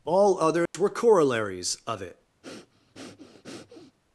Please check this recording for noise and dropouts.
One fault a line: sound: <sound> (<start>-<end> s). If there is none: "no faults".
sound: dropout (0.7-0.7 s)
sound: breath (2.4-4.0 s)